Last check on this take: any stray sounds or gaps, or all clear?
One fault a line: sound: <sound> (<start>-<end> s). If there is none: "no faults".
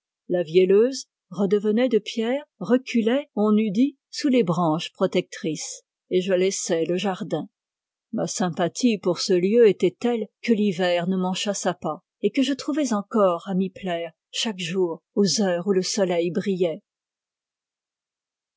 no faults